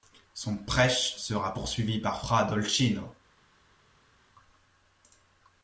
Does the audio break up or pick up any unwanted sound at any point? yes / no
no